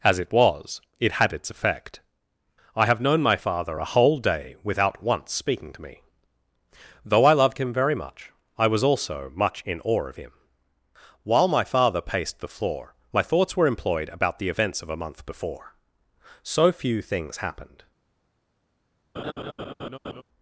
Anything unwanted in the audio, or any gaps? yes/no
yes